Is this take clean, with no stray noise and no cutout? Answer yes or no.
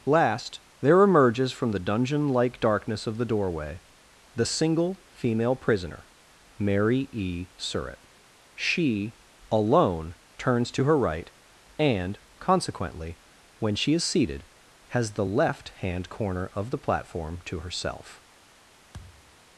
no